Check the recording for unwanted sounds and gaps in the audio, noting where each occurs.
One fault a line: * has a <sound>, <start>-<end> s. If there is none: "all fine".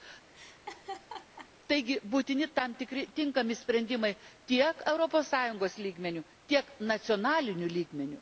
* has a laugh, 0.3-1.5 s